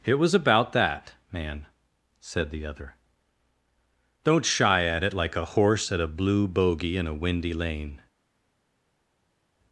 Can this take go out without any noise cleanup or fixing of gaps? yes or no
yes